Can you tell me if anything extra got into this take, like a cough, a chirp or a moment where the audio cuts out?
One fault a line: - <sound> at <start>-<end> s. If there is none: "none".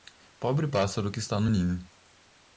none